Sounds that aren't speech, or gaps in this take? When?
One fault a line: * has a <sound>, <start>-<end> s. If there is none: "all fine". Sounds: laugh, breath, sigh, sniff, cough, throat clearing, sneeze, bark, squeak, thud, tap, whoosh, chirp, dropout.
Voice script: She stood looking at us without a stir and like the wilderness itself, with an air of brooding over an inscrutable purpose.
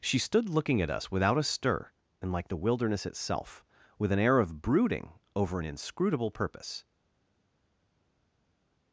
all fine